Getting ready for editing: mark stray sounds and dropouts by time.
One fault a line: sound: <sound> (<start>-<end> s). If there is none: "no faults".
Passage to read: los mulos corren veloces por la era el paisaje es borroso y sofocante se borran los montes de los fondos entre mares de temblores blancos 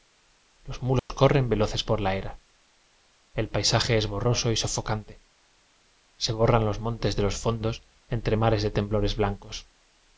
sound: dropout (1.0-1.1 s)